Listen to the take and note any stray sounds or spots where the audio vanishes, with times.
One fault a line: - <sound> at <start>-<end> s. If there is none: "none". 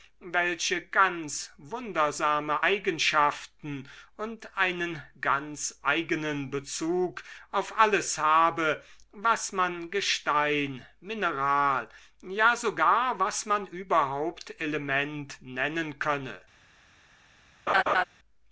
- laugh at 17.7-18.0 s